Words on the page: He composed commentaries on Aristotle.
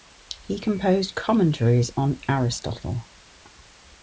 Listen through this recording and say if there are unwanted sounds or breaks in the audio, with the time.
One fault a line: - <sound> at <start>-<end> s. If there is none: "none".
none